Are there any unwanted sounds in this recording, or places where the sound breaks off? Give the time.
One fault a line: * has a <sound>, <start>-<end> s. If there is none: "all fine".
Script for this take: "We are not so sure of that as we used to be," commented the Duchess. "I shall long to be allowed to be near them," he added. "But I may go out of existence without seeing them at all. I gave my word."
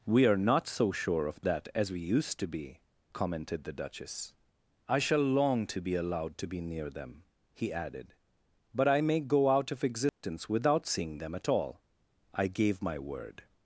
* has a dropout, 10.1-10.2 s